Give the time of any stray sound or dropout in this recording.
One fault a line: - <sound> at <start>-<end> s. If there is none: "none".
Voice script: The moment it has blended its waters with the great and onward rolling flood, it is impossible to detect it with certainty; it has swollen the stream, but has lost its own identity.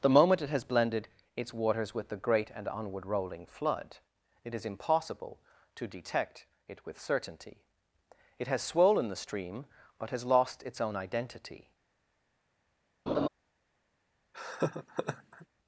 - laugh at 13.1-13.3 s
- laugh at 14.3-15.5 s